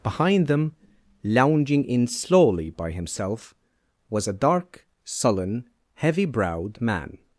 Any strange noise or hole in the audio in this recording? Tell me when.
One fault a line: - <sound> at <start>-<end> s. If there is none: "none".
none